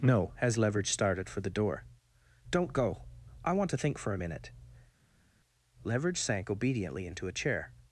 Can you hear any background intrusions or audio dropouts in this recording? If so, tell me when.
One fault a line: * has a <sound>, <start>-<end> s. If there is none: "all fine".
all fine